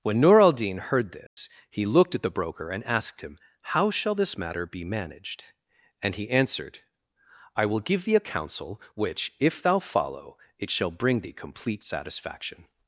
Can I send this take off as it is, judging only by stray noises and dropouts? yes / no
no